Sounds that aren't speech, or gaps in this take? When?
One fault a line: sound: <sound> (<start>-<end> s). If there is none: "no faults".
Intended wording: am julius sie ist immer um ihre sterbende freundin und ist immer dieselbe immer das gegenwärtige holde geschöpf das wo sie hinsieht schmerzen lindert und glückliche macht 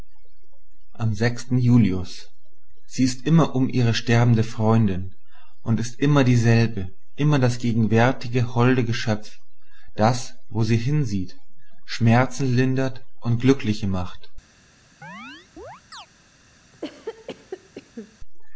sound: chirp (15.0-16.1 s)
sound: cough (16.7-18.2 s)